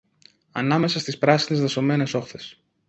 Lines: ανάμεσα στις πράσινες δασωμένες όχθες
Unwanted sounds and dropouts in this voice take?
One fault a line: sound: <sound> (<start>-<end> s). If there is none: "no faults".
no faults